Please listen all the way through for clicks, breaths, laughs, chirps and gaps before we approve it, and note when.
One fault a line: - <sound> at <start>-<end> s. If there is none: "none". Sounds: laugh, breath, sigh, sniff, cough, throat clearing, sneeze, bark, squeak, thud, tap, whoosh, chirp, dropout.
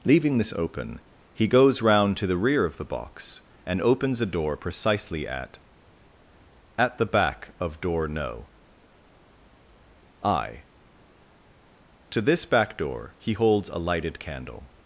none